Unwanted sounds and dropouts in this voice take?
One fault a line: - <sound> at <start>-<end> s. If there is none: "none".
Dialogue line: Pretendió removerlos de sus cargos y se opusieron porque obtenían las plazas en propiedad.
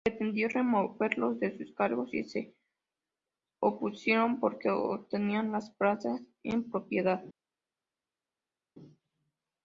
none